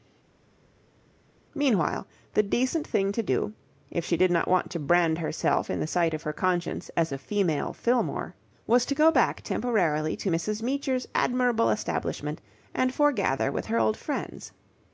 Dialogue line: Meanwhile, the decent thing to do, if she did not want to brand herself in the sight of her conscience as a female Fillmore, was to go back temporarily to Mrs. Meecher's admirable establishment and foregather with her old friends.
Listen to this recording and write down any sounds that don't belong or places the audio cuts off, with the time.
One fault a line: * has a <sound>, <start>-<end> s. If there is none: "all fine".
all fine